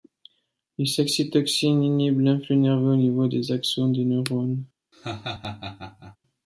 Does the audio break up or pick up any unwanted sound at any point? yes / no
yes